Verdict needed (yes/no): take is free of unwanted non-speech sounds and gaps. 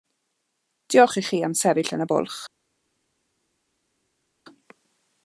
yes